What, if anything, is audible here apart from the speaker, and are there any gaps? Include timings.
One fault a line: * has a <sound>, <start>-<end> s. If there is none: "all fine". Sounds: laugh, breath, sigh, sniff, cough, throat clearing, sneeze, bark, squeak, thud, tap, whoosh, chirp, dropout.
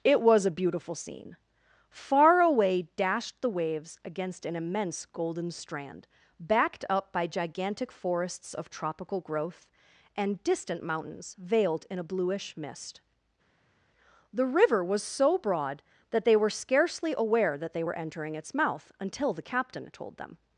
all fine